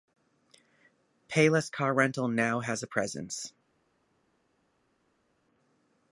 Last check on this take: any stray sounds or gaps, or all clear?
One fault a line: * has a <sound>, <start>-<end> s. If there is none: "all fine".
all fine